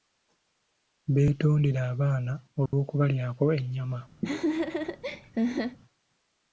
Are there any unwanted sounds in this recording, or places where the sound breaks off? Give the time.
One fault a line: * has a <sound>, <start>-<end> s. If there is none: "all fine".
* has a dropout, 2.7-2.7 s
* has a laugh, 4.2-5.8 s